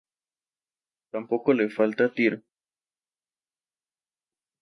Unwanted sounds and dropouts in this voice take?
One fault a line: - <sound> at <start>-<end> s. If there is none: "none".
none